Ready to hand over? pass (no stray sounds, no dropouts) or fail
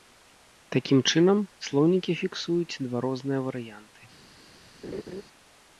fail